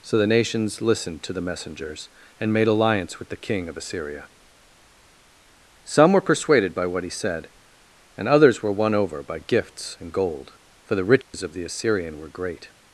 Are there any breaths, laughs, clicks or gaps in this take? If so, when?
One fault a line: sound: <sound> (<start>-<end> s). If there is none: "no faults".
sound: dropout (11.2-11.3 s)